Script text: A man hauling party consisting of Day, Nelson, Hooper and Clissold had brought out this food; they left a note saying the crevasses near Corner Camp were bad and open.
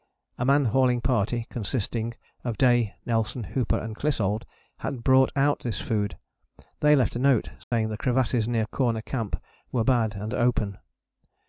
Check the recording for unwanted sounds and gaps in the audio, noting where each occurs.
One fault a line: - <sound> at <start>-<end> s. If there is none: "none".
- dropout at 7.6-7.7 s